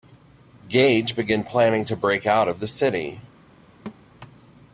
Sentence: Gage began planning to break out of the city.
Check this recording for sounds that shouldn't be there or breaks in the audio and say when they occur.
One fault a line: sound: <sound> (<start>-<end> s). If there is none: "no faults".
sound: thud (3.9-4.0 s)